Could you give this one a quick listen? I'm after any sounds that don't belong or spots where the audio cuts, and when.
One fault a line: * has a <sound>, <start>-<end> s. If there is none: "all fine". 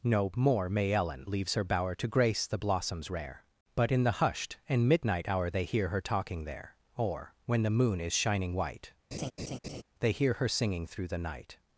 * has a laugh, 9.1-9.8 s